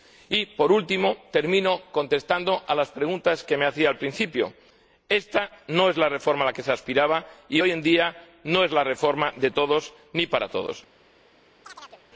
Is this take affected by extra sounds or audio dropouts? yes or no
yes